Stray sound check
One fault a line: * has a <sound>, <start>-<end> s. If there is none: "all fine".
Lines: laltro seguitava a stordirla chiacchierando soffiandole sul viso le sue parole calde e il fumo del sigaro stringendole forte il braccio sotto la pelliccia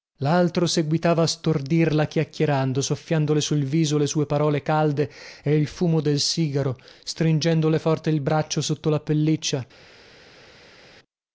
all fine